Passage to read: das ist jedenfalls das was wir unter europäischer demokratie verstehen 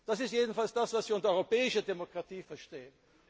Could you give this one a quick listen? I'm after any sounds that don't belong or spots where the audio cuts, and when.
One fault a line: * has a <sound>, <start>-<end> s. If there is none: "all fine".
all fine